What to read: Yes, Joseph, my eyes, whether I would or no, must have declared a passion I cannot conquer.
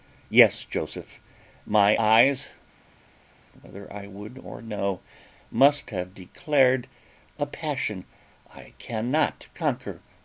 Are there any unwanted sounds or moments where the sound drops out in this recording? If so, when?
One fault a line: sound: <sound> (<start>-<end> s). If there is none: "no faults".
no faults